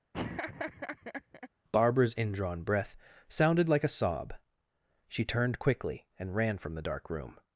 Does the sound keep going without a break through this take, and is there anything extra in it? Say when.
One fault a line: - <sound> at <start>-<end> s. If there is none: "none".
- laugh at 0.1-1.5 s